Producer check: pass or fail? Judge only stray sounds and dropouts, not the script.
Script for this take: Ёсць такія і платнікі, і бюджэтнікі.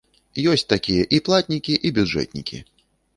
pass